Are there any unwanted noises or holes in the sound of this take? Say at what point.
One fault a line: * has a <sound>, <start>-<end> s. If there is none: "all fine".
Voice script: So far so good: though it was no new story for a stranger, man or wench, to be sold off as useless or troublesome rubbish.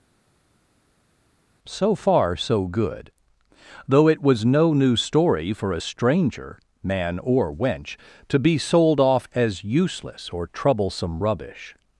all fine